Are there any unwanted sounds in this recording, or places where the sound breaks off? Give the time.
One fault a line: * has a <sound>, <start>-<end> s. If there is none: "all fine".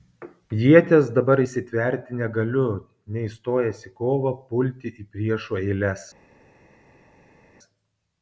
all fine